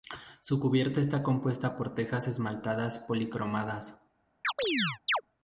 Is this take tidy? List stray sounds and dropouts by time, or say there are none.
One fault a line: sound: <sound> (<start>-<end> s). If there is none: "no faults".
sound: chirp (4.4-5.2 s)